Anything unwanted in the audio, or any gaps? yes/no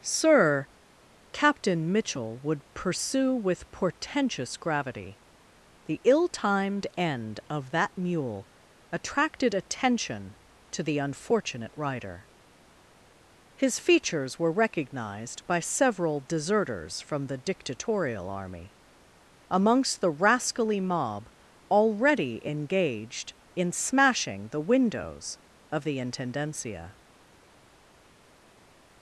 no